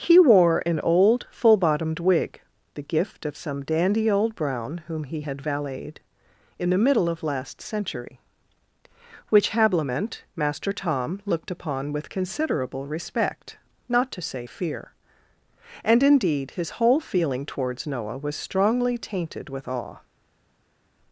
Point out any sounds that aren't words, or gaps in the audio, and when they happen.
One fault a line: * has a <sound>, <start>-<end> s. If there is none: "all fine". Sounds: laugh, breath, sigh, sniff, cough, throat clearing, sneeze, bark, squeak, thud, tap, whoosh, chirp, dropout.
all fine